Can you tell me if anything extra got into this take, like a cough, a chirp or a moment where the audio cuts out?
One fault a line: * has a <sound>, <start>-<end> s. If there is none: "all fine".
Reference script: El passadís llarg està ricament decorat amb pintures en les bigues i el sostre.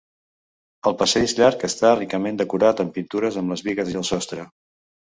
all fine